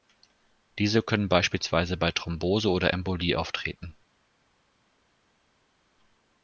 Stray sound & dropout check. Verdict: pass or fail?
pass